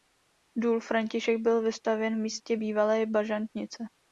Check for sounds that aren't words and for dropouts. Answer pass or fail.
pass